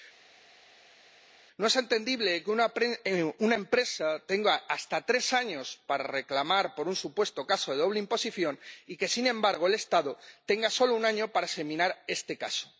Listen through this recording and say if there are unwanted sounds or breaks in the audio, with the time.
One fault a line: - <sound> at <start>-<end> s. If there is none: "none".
none